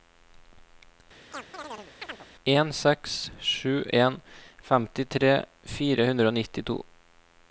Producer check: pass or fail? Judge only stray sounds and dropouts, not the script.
fail